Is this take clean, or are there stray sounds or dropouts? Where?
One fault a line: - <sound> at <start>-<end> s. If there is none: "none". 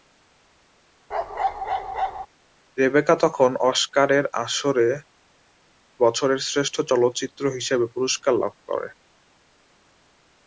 - bark at 1.1-2.3 s